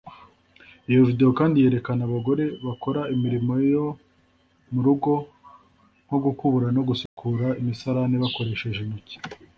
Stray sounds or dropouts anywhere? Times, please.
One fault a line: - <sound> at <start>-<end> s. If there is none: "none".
- dropout at 7.1-7.2 s